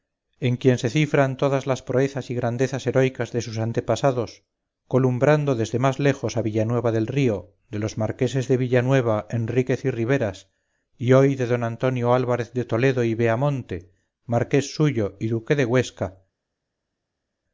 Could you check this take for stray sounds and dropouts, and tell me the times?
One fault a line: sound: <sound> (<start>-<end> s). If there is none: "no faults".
no faults